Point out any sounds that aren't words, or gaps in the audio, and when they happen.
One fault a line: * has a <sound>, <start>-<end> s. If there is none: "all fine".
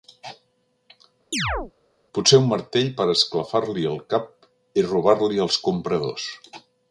* has a chirp, 1.3-1.7 s